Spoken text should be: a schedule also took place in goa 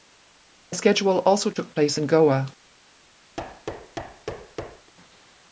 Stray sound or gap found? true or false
true